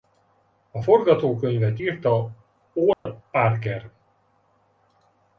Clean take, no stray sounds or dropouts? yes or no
no